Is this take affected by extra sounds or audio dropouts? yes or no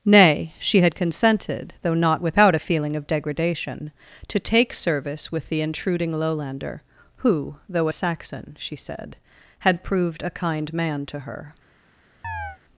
yes